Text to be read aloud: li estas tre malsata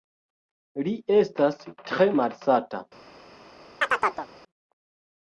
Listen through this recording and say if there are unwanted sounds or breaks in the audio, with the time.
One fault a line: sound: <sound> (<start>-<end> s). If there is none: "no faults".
sound: chirp (3.8-4.3 s)